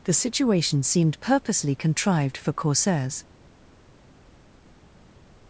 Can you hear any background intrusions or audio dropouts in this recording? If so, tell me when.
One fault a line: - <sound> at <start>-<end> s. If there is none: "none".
none